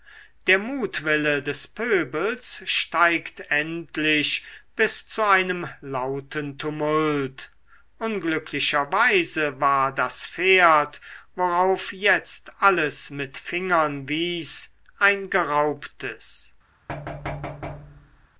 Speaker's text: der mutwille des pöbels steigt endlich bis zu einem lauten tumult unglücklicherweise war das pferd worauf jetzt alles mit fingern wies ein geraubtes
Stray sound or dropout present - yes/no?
yes